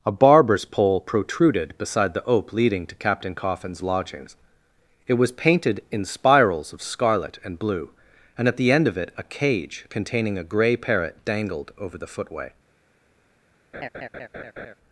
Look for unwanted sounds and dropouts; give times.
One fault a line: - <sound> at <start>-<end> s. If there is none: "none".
- laugh at 13.7-14.7 s